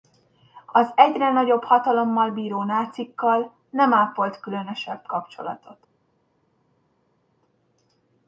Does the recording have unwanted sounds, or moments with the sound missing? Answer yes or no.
no